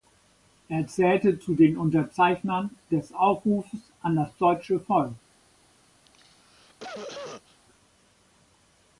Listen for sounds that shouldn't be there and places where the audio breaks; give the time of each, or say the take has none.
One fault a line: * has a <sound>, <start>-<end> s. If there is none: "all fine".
* has a cough, 6.1-7.6 s